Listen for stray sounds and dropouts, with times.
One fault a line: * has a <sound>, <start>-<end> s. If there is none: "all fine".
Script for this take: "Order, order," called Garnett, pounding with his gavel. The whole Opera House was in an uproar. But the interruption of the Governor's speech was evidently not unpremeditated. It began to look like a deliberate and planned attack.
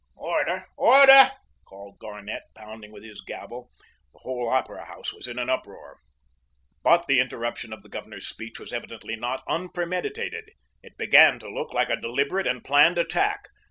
all fine